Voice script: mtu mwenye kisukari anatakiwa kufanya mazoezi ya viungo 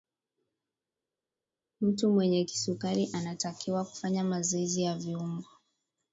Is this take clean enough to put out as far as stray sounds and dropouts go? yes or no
yes